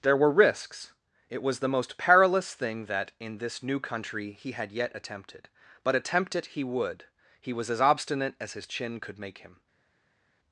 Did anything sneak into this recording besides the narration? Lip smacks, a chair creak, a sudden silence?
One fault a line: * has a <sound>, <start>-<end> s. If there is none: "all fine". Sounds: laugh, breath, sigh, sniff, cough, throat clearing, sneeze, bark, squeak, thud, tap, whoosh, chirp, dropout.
all fine